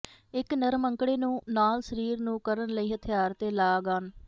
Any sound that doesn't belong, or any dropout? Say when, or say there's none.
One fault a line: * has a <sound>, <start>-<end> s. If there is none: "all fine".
all fine